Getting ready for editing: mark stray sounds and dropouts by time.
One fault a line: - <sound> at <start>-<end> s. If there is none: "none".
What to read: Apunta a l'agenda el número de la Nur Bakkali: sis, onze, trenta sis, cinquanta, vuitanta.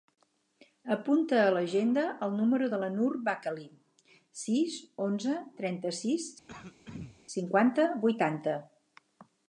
- throat clearing at 6.5-7.2 s